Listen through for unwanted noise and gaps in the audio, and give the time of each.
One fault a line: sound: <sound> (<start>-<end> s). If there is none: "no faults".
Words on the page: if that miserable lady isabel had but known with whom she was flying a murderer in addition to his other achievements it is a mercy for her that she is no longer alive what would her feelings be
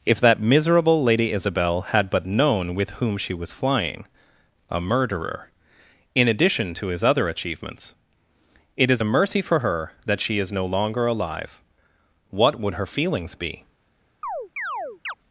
sound: chirp (14.2-15.1 s)